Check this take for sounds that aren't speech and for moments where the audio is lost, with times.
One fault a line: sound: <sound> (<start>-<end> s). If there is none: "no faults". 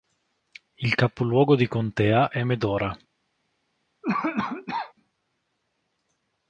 sound: cough (4.0-4.9 s)